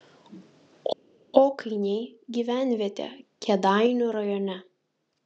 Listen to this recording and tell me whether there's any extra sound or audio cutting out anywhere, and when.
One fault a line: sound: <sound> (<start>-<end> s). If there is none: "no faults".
no faults